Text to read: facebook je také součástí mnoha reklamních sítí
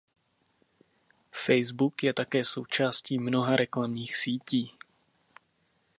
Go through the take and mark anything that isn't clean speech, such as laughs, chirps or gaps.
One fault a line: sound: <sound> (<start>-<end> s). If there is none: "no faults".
no faults